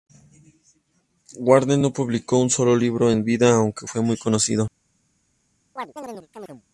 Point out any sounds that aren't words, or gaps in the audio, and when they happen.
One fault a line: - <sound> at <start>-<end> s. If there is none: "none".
- chirp at 5.8-6.6 s